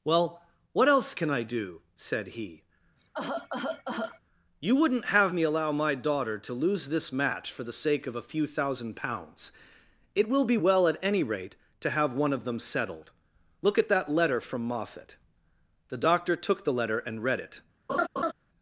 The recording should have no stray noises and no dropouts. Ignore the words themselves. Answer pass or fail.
fail